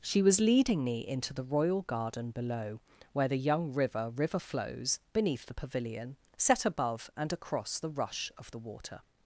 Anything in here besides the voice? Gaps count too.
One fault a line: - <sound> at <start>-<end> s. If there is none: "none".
none